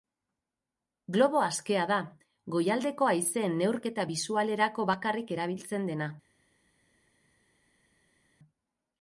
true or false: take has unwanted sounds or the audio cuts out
false